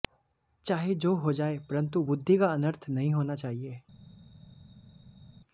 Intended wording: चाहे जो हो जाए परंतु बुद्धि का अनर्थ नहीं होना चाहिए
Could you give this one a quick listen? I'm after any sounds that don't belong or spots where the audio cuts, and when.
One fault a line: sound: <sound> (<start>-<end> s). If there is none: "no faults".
no faults